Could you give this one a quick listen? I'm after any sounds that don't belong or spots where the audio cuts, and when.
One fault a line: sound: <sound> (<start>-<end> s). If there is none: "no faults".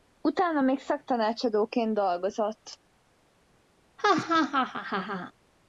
sound: laugh (4.0-5.3 s)